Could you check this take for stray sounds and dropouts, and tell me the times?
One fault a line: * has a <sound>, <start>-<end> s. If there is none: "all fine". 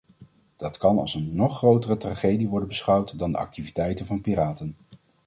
all fine